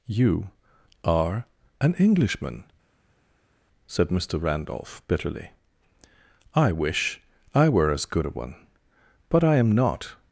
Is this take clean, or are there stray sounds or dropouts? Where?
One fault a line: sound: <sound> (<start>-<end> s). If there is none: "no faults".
no faults